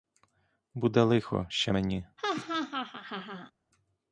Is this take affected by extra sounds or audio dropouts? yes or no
yes